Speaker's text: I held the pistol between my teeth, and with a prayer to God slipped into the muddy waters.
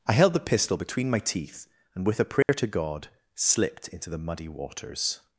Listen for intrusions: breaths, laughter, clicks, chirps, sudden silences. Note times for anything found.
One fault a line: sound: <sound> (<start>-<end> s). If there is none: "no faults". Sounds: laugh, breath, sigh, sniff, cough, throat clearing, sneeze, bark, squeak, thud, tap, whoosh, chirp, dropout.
sound: dropout (2.4-2.5 s)